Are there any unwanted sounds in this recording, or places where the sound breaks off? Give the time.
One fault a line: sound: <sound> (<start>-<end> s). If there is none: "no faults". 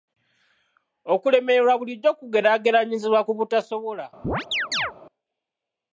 sound: chirp (4.2-4.9 s)